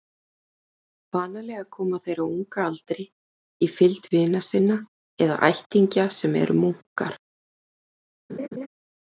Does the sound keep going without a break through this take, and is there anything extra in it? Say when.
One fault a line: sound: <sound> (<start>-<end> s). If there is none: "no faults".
sound: laugh (8.3-8.7 s)